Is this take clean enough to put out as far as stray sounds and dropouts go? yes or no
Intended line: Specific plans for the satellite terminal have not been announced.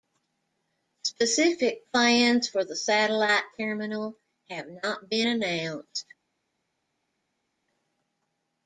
yes